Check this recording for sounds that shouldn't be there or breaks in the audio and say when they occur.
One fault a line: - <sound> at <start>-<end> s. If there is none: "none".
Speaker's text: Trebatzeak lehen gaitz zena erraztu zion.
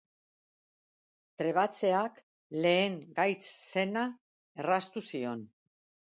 none